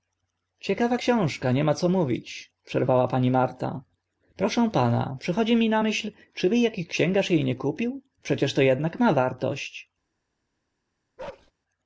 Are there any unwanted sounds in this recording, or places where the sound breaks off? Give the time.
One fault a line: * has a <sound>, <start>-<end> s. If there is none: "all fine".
* has a bark, 11.2-11.5 s